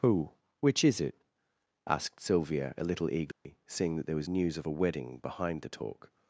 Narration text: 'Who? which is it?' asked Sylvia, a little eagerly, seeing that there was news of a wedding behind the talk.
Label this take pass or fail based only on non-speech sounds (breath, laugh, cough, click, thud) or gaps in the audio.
fail